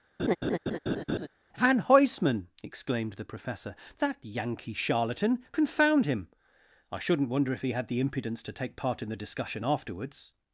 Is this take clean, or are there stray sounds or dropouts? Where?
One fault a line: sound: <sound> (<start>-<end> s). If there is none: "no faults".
sound: laugh (0.2-1.3 s)